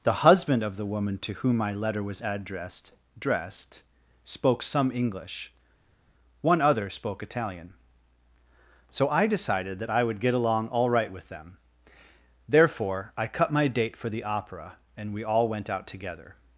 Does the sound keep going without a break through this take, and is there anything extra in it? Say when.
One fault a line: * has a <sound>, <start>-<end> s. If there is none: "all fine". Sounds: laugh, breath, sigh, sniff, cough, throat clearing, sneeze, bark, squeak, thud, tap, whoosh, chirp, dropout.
all fine